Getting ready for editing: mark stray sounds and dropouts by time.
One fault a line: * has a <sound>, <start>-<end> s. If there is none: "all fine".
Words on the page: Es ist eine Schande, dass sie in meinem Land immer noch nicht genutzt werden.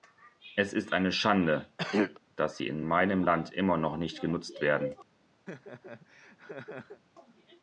* has a throat clearing, 1.8-2.2 s
* has a laugh, 5.5-7.0 s